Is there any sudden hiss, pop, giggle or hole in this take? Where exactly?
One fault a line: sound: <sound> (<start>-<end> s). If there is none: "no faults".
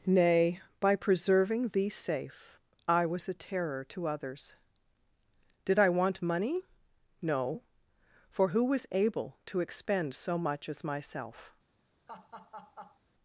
sound: laugh (12.1-13.0 s)